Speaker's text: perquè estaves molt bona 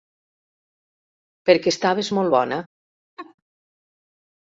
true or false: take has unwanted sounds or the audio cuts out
true